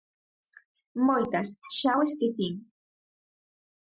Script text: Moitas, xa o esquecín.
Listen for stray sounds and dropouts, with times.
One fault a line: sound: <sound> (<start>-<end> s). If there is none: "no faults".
no faults